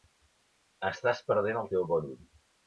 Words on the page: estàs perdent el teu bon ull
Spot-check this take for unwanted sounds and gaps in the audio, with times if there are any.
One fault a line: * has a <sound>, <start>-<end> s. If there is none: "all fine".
all fine